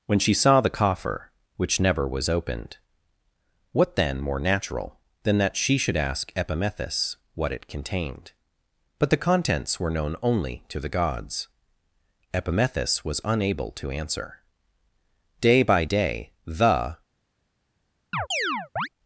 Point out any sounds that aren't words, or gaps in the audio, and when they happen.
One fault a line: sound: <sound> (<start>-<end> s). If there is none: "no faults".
sound: chirp (18.1-18.9 s)